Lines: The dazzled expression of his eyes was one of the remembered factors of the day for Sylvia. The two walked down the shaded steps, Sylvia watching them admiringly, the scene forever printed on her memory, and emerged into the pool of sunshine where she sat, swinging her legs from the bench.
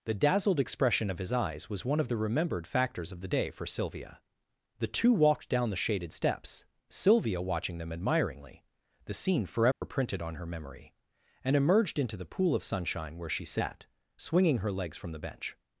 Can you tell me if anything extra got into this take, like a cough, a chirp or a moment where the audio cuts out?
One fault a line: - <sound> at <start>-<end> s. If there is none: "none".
- dropout at 9.7-9.8 s